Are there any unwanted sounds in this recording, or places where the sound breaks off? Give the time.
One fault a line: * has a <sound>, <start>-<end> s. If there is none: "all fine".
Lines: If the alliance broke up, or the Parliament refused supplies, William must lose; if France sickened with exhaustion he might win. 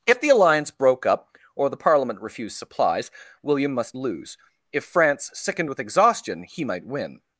all fine